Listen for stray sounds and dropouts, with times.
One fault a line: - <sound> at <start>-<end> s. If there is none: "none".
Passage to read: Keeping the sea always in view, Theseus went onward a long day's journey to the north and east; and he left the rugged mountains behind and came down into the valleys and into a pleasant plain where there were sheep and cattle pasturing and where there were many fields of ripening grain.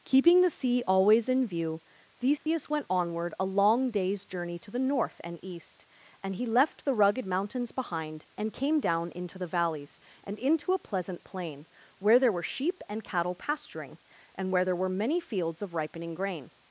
- dropout at 2.4-2.5 s